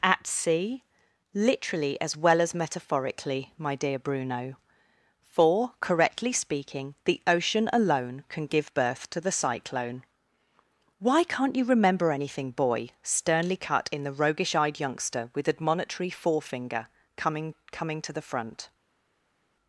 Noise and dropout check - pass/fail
pass